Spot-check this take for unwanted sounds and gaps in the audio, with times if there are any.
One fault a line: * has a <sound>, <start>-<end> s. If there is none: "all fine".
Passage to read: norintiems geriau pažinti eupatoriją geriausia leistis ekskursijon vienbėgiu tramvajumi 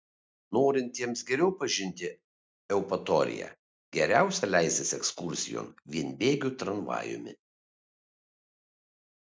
all fine